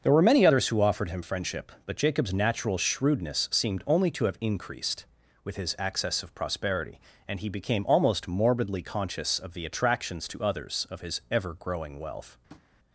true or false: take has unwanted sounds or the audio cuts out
true